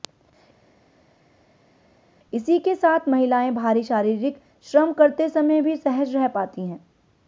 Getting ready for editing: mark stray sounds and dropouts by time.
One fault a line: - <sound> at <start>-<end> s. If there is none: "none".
none